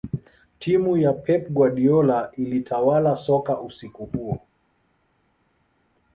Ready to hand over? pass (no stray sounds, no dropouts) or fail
pass